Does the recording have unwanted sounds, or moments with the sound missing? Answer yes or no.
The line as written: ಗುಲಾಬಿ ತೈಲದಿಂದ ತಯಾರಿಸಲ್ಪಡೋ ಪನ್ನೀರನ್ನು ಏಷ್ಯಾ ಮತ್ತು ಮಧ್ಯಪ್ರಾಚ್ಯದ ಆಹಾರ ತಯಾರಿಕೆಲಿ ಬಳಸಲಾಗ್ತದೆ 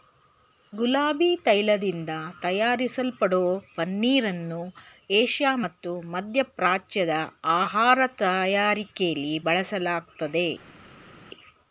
no